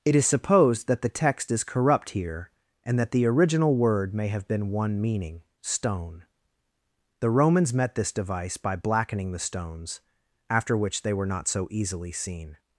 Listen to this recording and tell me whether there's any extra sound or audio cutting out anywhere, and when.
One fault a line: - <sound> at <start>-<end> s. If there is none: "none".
none